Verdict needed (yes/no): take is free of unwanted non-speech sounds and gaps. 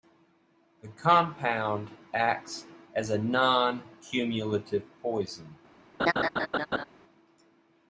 no